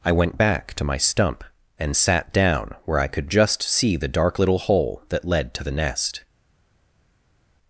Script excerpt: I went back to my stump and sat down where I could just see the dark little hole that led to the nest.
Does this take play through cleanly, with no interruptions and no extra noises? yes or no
yes